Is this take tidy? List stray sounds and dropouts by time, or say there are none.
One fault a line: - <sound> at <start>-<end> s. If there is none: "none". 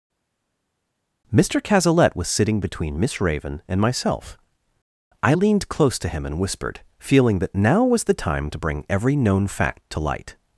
none